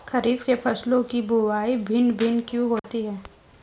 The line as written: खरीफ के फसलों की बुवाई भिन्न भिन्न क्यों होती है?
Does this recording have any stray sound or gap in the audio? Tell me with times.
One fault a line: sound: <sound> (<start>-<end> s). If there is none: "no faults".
sound: dropout (2.8-2.8 s)